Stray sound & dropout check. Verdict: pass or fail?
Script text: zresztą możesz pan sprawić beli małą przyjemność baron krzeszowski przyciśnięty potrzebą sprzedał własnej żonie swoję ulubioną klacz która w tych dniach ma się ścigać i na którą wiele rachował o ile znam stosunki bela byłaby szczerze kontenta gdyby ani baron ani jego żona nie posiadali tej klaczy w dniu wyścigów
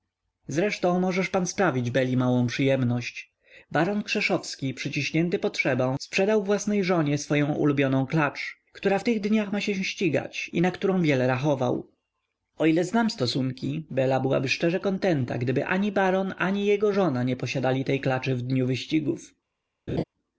fail